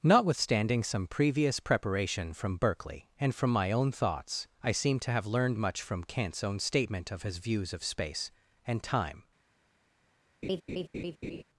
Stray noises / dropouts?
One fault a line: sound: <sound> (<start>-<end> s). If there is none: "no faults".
sound: laugh (10.4-11.4 s)